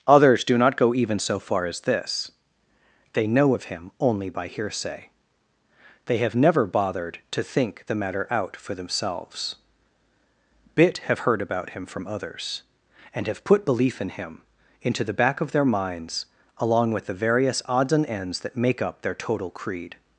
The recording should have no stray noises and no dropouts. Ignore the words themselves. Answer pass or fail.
pass